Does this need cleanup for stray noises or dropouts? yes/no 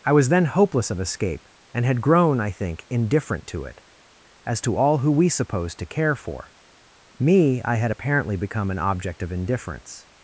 no